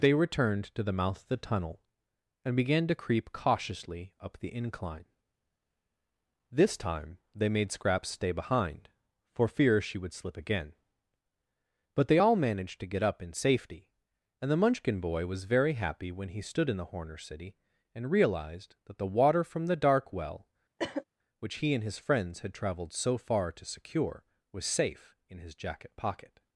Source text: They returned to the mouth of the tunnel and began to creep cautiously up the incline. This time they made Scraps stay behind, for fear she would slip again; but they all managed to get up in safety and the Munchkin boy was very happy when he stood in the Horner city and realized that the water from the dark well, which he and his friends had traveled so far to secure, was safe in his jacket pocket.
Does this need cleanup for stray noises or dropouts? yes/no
yes